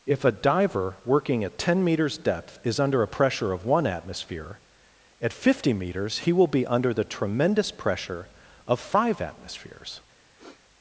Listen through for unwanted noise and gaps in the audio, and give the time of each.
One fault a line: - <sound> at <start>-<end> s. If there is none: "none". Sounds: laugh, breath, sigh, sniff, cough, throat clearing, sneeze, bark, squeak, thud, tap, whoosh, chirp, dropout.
- sniff at 10.4-10.6 s